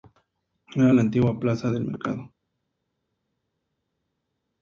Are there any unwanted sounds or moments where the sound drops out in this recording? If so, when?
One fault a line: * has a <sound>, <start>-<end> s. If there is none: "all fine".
all fine